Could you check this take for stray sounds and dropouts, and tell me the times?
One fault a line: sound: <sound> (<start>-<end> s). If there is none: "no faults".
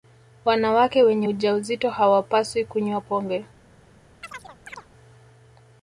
sound: chirp (4.2-4.9 s)